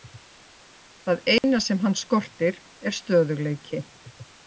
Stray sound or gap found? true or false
true